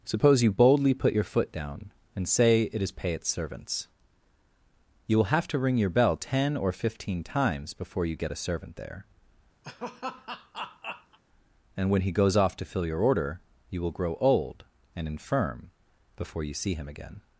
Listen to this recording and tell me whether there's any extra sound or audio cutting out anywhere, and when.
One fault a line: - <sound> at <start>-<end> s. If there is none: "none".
- laugh at 9.6-11.2 s